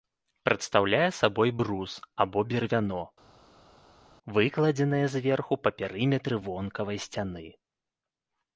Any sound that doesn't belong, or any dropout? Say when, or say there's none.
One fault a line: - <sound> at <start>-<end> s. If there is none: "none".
none